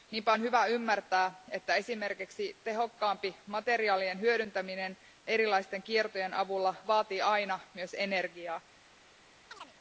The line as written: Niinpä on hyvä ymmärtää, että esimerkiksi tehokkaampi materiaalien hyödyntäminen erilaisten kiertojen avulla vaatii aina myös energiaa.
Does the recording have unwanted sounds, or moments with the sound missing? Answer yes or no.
yes